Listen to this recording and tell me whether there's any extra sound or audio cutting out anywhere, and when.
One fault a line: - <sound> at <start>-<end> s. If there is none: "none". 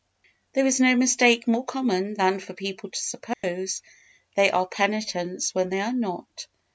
- dropout at 3.3-3.4 s